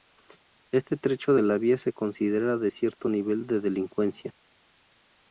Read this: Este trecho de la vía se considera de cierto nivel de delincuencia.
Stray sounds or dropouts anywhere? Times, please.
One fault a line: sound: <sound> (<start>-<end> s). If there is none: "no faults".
no faults